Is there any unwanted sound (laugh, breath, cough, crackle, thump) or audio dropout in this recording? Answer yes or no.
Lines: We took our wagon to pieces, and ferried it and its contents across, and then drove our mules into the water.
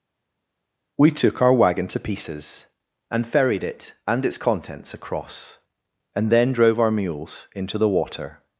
no